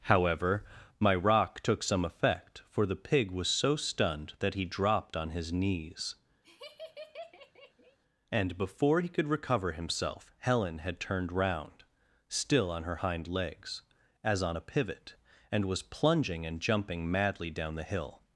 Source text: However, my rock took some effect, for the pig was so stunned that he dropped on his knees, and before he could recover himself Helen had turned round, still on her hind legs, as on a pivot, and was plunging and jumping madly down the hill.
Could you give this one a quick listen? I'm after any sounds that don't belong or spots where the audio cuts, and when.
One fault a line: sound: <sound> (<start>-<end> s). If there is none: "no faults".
sound: laugh (6.4-8.0 s)